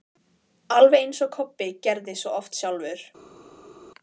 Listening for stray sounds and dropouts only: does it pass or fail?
pass